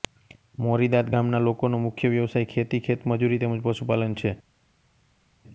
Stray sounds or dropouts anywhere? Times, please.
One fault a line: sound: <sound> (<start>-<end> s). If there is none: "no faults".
no faults